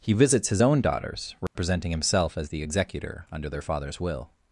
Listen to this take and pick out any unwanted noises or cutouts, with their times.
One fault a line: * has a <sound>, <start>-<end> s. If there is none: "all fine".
* has a dropout, 1.5-1.6 s